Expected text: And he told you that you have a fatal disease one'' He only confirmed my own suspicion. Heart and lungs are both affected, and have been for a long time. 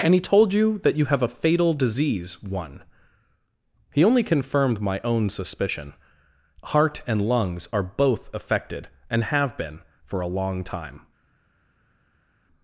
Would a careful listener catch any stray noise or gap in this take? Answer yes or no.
no